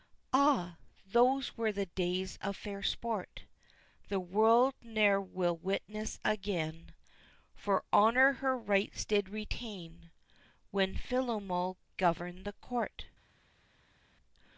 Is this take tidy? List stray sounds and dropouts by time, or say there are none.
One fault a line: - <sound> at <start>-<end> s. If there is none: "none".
none